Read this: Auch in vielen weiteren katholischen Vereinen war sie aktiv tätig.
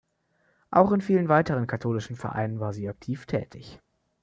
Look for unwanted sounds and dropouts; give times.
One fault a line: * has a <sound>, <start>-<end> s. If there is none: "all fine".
all fine